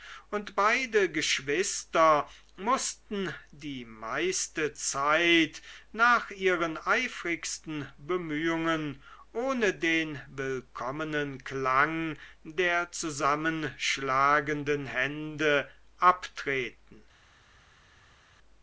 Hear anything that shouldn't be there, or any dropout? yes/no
no